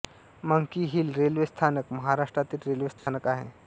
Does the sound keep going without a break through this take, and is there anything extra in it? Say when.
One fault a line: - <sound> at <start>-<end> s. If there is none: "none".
- dropout at 3.0-3.1 s